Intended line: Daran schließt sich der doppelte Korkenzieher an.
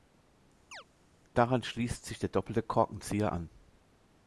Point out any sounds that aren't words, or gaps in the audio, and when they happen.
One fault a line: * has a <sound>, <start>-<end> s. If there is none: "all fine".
* has a chirp, 0.7-0.8 s